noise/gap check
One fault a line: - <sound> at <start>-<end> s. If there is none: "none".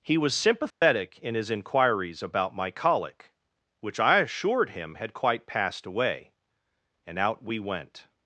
- dropout at 0.7-0.8 s